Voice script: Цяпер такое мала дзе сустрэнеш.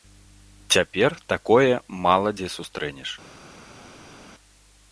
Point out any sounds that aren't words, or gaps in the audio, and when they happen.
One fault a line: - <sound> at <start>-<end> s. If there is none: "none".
none